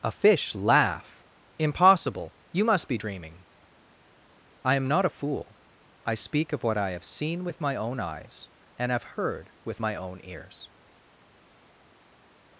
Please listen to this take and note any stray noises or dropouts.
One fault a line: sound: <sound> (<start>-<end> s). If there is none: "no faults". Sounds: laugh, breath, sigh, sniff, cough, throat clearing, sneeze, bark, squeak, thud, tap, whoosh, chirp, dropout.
no faults